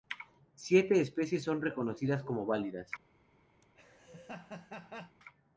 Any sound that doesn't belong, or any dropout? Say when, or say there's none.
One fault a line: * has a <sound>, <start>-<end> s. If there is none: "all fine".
* has a laugh, 3.6-5.2 s